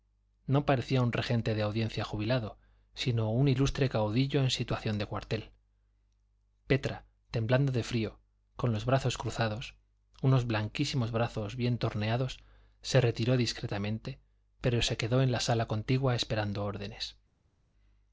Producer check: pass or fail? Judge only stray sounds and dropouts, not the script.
pass